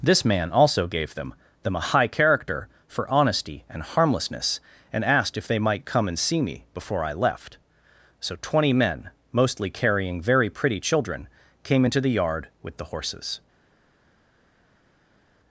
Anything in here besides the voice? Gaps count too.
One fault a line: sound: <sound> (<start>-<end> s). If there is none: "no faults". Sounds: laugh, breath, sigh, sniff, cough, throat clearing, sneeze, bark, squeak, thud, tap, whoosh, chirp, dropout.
no faults